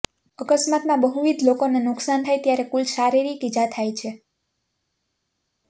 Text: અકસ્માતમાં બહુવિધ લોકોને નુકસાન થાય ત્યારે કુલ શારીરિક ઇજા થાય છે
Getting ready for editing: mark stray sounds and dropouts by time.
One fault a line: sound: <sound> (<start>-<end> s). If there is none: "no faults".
no faults